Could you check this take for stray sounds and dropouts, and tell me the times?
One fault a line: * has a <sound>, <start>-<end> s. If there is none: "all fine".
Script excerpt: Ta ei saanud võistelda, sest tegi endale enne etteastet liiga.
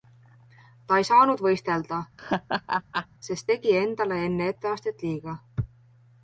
* has a laugh, 2.2-3.1 s